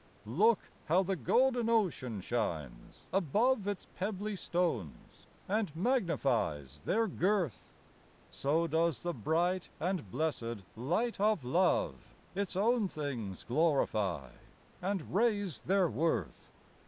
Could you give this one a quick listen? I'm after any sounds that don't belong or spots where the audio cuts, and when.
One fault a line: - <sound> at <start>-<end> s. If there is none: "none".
none